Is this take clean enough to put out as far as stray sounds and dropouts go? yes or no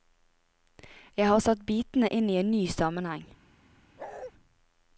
no